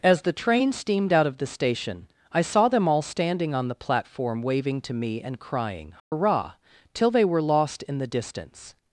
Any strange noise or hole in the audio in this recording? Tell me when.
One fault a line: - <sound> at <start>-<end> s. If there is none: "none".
- dropout at 6.0-6.1 s